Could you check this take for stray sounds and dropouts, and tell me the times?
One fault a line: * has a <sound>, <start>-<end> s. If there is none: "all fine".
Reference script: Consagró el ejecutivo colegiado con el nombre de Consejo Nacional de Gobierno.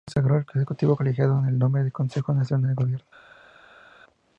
all fine